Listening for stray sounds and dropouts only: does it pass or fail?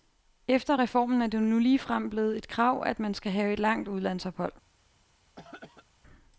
fail